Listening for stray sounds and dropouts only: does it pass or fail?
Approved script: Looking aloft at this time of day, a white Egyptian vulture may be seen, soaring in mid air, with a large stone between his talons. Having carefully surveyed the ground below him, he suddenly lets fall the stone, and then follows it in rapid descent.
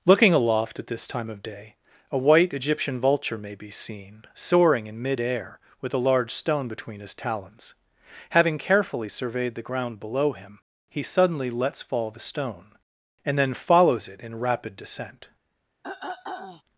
fail